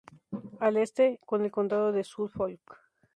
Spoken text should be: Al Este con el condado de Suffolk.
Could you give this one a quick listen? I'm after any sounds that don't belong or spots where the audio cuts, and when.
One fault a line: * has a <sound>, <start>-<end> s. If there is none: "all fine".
all fine